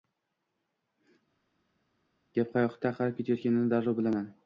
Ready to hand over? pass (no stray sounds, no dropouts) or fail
pass